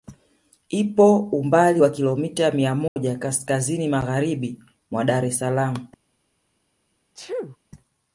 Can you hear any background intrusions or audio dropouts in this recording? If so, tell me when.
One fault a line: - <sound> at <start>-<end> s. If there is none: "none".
- dropout at 2.9-3.0 s
- sneeze at 7.1-7.6 s